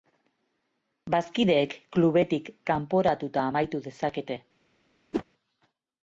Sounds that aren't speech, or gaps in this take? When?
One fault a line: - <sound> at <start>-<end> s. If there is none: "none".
- whoosh at 5.1-5.2 s